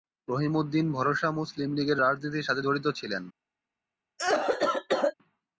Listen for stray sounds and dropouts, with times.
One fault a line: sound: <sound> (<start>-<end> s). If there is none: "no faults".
sound: cough (4.2-5.1 s)